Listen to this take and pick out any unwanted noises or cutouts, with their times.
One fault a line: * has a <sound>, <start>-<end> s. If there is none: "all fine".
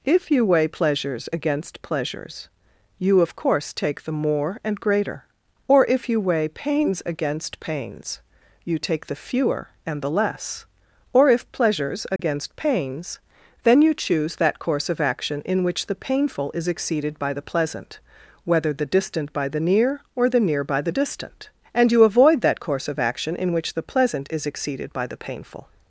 * has a dropout, 12.2-12.2 s